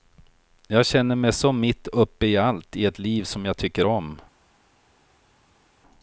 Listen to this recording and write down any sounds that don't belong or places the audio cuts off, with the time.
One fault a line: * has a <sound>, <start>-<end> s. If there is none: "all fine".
all fine